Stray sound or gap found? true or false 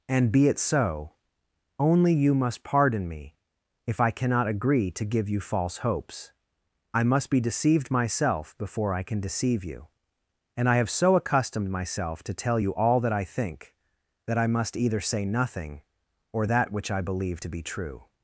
false